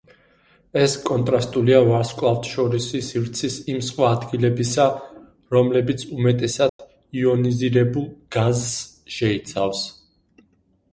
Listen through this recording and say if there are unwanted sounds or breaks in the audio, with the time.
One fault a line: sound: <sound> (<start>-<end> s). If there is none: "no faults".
sound: dropout (6.7-6.8 s)